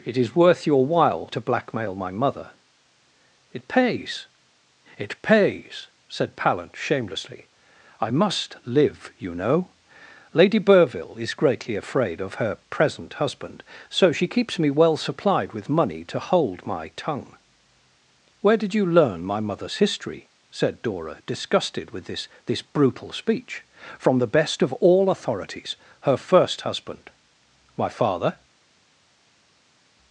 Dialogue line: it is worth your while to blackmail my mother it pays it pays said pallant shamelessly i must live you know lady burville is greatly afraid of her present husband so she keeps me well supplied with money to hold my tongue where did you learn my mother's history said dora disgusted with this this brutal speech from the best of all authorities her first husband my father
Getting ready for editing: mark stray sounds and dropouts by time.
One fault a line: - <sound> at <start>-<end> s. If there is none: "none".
none